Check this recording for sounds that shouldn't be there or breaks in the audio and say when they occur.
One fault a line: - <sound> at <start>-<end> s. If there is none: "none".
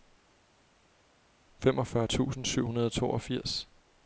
none